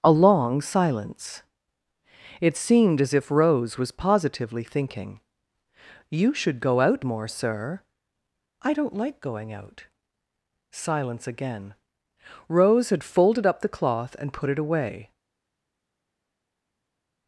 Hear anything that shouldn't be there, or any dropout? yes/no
no